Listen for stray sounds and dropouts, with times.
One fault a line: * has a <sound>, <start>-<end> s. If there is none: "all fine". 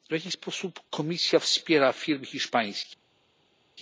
all fine